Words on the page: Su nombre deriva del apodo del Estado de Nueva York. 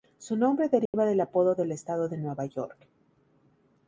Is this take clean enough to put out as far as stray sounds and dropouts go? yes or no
no